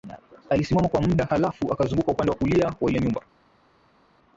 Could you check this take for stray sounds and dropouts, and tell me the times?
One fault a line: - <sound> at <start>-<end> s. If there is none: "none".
none